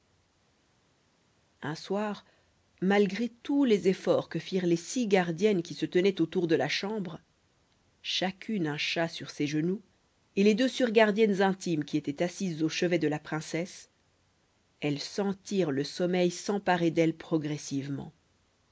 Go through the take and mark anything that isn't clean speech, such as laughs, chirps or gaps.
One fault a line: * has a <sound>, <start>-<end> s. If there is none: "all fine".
all fine